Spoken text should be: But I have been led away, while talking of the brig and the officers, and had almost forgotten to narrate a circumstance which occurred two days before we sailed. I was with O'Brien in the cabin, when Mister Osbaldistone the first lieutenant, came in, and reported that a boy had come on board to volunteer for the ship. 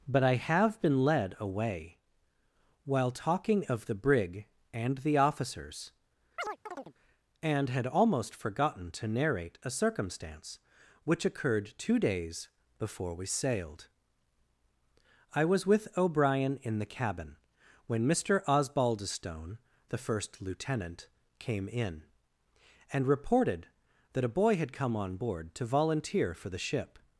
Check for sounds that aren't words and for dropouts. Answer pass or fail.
fail